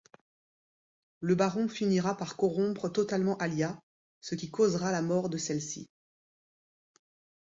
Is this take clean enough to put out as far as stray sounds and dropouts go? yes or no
yes